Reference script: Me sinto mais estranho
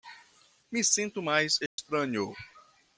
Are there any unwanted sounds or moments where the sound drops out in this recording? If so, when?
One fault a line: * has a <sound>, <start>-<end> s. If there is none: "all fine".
* has a dropout, 1.7-1.8 s